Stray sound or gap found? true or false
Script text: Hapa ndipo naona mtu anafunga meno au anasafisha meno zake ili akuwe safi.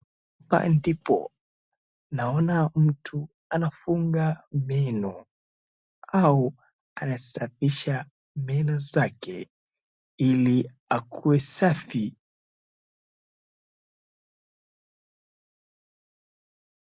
false